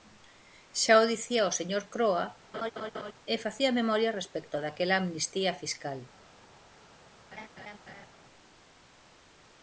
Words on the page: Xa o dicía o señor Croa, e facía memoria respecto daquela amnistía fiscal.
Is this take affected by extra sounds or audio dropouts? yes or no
yes